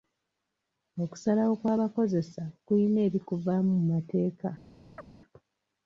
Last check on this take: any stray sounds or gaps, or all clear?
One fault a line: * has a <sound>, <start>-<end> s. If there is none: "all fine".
* has a chirp, 5.0-5.1 s